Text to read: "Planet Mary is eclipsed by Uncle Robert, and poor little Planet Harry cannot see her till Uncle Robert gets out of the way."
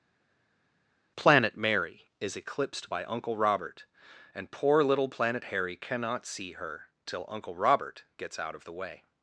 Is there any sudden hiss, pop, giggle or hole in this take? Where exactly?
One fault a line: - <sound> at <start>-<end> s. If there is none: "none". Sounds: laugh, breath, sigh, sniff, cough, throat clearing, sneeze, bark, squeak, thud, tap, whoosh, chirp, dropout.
none